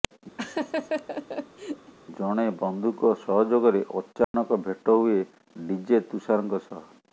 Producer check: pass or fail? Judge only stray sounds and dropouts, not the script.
fail